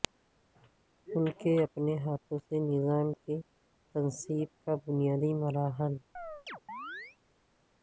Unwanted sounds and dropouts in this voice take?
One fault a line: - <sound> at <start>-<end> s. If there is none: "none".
- chirp at 6.2-7.2 s